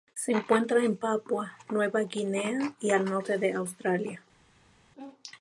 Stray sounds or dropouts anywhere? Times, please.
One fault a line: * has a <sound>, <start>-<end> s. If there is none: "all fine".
all fine